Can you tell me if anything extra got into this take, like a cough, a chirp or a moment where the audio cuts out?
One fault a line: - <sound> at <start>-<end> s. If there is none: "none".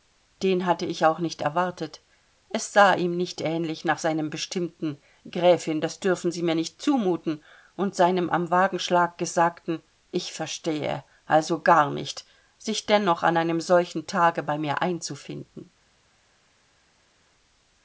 none